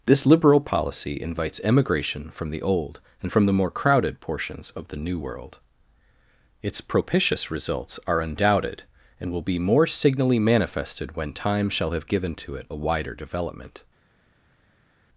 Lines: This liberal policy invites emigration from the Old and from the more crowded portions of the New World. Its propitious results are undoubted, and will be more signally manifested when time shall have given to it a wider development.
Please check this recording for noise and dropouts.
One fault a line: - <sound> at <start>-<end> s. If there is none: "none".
none